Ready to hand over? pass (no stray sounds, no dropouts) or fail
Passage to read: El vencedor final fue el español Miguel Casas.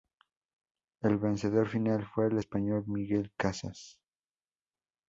pass